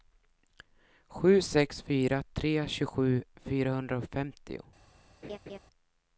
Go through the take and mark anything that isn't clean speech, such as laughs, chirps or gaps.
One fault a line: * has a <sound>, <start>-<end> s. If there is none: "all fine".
* has a laugh, 5.2-5.6 s